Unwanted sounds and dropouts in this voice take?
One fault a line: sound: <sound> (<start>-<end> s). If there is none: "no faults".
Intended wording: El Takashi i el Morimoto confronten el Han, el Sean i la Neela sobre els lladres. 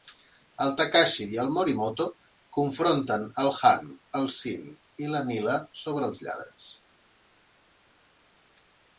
no faults